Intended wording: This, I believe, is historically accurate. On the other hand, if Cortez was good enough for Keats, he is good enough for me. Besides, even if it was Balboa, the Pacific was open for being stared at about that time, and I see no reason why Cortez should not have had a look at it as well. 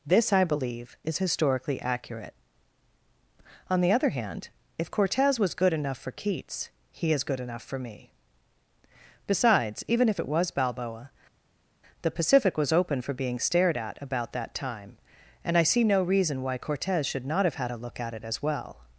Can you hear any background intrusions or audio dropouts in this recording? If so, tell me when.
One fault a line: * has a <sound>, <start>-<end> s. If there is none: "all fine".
all fine